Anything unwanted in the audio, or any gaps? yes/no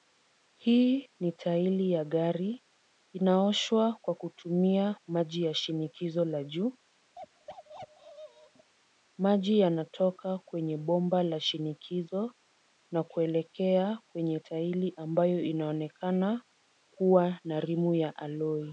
yes